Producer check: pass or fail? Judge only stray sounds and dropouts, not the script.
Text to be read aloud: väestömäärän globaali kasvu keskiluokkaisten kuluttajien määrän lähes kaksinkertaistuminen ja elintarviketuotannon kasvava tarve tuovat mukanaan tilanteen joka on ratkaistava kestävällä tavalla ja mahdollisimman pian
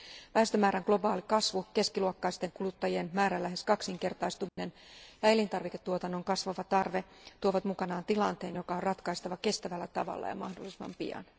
fail